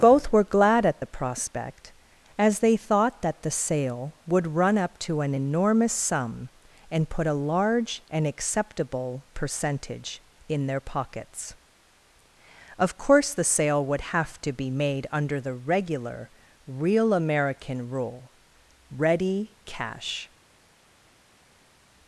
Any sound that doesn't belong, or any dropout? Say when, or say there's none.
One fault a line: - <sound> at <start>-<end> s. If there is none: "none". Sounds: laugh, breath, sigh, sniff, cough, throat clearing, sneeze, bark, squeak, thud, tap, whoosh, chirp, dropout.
none